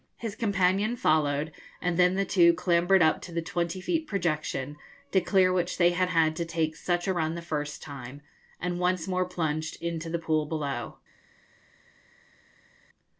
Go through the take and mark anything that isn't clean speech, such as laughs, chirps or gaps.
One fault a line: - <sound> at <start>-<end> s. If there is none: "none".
none